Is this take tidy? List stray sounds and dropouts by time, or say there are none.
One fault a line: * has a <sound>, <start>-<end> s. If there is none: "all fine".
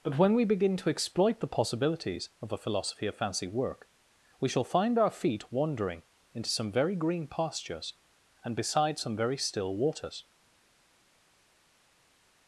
all fine